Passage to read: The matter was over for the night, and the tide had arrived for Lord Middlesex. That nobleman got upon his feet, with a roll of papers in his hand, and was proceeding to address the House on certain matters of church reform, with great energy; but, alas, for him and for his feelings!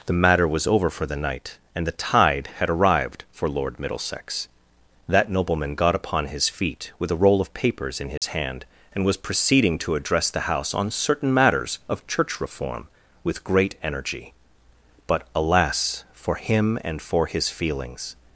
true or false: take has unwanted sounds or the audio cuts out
true